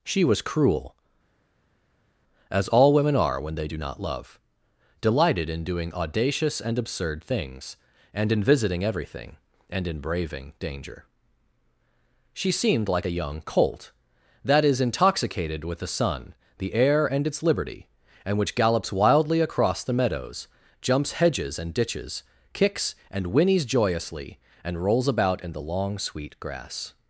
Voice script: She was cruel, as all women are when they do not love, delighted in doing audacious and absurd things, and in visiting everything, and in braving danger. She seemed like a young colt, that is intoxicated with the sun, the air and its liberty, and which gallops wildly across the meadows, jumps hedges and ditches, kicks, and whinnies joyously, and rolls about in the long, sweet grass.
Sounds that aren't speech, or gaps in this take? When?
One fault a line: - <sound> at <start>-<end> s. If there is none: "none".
none